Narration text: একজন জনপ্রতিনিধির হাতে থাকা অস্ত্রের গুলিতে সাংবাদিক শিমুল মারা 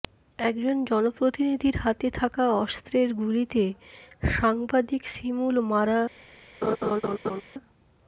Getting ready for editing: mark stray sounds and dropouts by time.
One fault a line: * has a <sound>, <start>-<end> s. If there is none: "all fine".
* has a laugh, 6.6-7.4 s